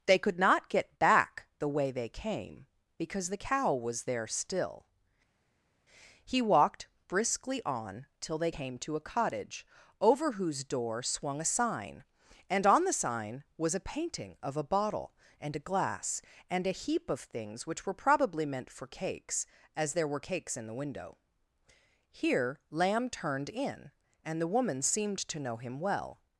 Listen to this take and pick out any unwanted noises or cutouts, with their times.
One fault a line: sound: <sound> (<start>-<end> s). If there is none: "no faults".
no faults